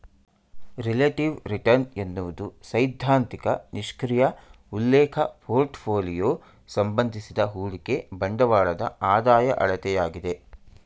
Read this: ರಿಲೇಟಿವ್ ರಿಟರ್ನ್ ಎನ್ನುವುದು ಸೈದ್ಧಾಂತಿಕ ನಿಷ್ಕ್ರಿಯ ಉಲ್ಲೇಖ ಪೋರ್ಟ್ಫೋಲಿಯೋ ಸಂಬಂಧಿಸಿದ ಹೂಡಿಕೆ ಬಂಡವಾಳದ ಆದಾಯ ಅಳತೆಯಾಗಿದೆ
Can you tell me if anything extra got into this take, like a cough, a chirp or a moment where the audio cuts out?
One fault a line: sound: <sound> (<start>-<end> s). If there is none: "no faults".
no faults